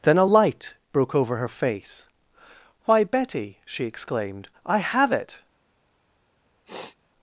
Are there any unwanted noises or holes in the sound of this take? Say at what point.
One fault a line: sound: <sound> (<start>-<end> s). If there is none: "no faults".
sound: sniff (6.7-7.0 s)